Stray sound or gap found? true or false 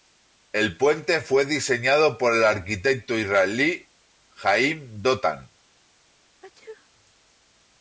true